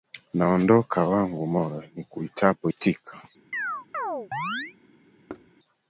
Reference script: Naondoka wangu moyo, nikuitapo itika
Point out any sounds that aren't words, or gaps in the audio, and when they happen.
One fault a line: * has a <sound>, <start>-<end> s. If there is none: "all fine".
* has a chirp, 3.5-4.8 s
* has a thud, 5.3-5.5 s